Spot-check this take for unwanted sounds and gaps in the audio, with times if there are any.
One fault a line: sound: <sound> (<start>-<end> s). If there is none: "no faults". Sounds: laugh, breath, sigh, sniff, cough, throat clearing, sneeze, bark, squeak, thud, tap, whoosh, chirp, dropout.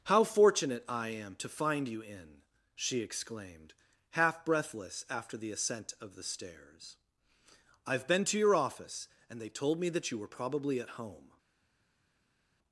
no faults